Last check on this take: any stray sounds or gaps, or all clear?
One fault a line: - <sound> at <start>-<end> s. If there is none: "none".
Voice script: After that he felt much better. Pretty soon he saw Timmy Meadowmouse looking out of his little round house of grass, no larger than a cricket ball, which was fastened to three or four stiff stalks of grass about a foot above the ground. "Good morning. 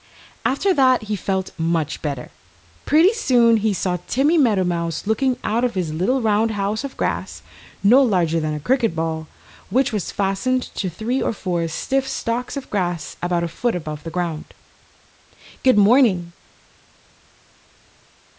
none